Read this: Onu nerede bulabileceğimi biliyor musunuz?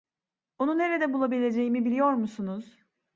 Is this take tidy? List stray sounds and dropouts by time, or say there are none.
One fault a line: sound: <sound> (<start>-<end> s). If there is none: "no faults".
no faults